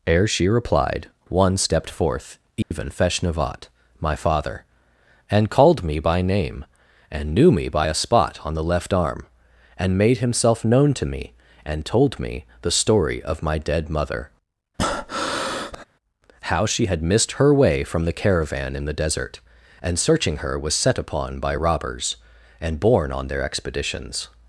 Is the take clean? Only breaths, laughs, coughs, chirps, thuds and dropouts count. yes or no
no